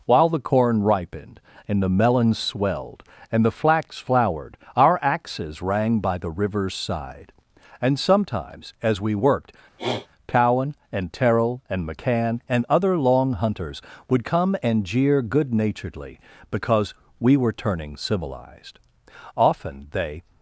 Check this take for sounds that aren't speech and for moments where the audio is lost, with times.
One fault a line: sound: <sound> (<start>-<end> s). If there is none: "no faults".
sound: sniff (9.8-10.1 s)